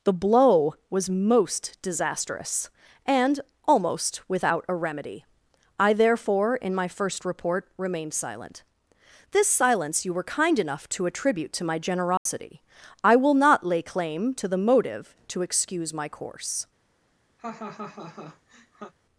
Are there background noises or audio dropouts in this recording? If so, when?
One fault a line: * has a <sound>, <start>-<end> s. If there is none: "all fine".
* has a dropout, 12.2-12.3 s
* has a laugh, 17.4-18.9 s